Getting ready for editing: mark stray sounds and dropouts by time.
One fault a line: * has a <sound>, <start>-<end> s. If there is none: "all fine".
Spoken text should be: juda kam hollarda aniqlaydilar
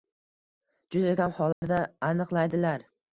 * has a dropout, 1.5-1.6 s